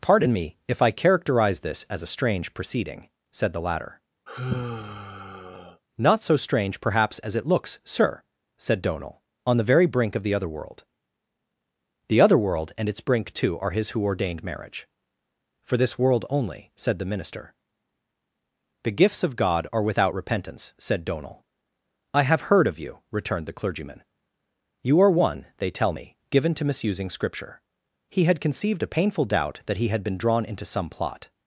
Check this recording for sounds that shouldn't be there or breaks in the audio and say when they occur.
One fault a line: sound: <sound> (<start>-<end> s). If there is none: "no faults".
sound: sigh (4.3-5.8 s)